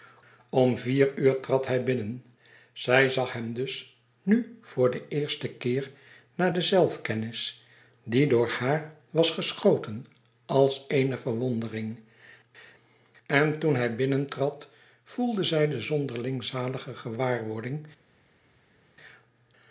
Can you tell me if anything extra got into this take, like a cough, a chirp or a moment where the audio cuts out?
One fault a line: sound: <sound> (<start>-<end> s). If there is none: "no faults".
no faults